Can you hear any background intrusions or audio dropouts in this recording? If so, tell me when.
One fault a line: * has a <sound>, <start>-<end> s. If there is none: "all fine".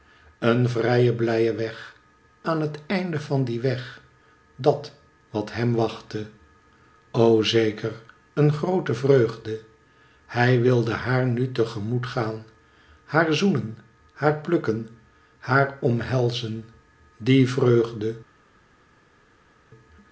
all fine